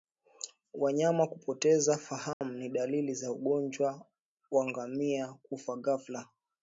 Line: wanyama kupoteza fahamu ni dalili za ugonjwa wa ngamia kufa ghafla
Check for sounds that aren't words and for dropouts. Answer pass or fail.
fail